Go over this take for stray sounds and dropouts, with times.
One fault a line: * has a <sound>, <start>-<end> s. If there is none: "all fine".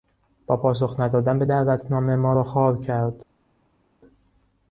all fine